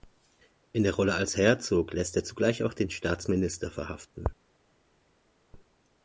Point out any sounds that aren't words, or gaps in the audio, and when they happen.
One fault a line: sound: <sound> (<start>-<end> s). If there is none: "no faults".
no faults